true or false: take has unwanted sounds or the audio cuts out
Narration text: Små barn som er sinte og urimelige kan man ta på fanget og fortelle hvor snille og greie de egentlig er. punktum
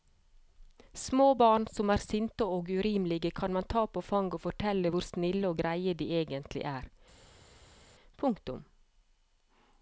false